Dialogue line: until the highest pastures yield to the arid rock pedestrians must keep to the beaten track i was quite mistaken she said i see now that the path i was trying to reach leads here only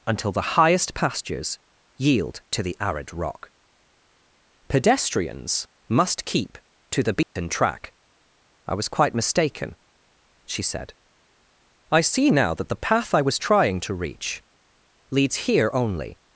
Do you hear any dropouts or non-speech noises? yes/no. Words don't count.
yes